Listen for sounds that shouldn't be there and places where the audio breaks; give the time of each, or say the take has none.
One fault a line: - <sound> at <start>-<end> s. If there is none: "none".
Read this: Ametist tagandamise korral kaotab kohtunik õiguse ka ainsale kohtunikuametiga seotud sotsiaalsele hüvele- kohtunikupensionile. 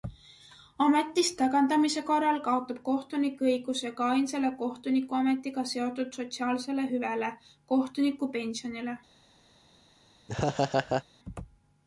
- laugh at 10.3-11.0 s